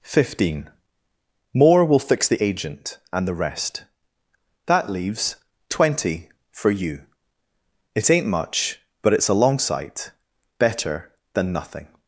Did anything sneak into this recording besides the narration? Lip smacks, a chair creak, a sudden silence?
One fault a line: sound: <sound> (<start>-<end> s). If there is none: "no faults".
no faults